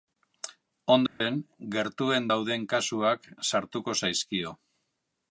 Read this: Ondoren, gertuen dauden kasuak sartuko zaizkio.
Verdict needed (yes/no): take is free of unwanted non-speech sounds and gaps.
no